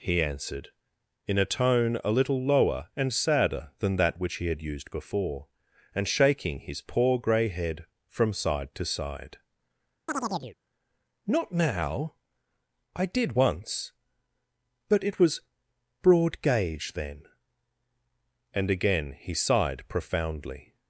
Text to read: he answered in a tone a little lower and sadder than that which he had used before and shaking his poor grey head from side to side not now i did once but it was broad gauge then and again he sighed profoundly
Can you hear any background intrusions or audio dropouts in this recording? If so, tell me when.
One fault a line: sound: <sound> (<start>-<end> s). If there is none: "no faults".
sound: chirp (10.1-10.6 s)